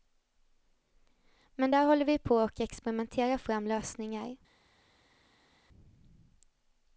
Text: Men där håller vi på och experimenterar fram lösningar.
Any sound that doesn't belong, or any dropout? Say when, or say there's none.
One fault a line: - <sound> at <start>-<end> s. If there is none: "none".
none